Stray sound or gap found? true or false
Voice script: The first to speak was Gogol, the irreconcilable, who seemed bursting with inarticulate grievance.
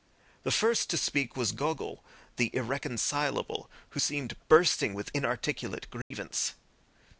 true